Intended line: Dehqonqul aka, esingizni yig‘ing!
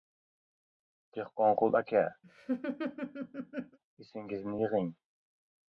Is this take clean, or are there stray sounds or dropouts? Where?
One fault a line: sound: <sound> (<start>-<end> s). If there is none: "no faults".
sound: laugh (2.2-3.8 s)